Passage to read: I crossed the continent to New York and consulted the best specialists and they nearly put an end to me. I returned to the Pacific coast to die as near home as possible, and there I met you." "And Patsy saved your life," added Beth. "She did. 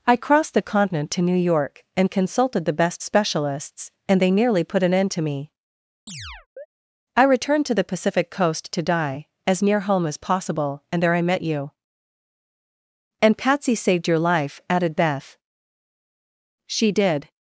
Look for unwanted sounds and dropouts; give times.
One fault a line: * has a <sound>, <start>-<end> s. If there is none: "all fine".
* has a chirp, 6.1-6.7 s